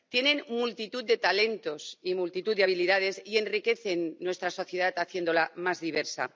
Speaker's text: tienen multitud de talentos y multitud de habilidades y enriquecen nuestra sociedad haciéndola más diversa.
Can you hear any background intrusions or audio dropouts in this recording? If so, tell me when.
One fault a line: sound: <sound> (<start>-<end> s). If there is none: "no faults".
no faults